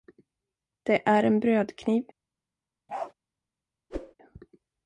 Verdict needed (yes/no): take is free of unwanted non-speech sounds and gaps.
no